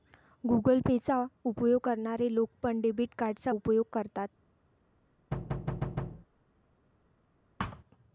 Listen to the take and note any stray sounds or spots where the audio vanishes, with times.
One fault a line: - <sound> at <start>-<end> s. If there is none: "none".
- thud at 5.3-6.3 s
- thud at 7.6-7.8 s